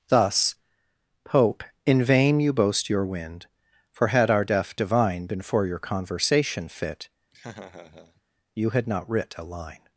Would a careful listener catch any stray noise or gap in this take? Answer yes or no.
yes